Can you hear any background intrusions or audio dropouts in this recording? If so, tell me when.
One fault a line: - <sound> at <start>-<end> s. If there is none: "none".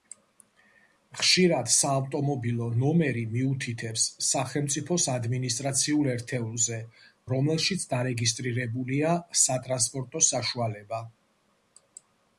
none